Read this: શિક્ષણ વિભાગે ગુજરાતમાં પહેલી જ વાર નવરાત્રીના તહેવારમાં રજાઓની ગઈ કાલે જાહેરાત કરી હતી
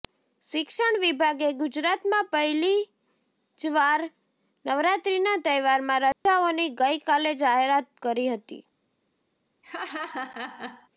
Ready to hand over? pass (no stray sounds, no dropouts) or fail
fail